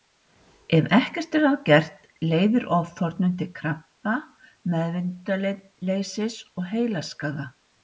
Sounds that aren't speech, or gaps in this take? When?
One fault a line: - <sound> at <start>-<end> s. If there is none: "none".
none